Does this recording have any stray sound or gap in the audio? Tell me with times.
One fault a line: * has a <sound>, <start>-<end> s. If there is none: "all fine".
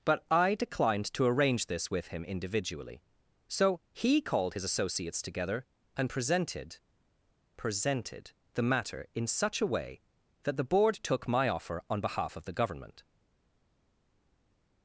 all fine